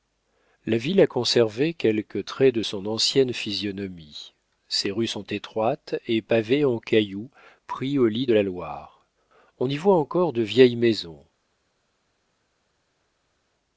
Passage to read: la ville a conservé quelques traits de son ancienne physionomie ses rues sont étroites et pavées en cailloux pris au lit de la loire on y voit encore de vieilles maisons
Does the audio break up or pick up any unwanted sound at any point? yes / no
no